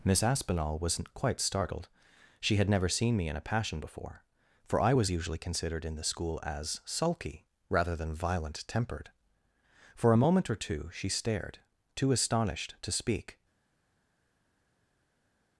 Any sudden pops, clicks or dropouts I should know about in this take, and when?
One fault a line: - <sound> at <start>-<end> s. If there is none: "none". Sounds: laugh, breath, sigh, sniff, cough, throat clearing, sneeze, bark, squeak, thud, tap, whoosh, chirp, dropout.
none